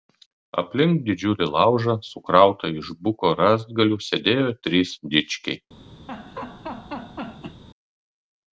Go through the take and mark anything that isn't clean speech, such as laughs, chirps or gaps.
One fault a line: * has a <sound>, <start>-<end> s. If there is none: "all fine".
* has a laugh, 6.1-7.6 s